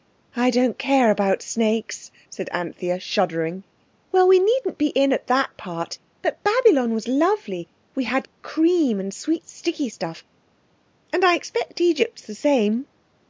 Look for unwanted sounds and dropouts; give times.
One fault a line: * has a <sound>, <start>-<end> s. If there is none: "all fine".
all fine